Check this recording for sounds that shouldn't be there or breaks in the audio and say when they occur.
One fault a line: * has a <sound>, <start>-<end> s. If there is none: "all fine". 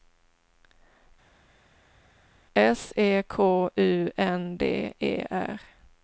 all fine